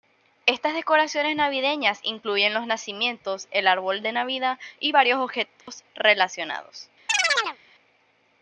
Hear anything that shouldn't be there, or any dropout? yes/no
yes